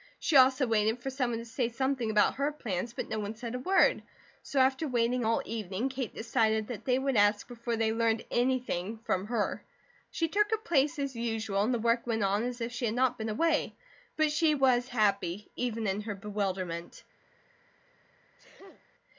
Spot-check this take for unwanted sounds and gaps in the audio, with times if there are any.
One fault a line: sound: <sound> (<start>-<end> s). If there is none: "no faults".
sound: sneeze (18.4-18.9 s)